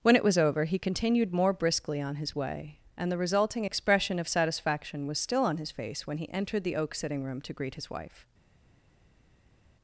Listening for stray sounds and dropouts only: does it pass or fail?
pass